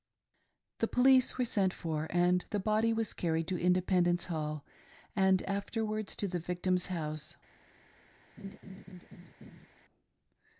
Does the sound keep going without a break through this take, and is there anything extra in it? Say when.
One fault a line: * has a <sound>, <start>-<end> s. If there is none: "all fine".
* has a laugh, 8.4-9.7 s